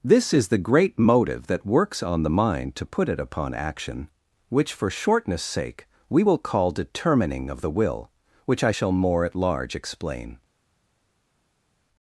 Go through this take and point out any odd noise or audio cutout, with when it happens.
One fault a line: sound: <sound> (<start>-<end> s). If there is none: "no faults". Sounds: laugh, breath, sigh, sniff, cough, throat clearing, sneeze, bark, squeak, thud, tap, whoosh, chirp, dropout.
no faults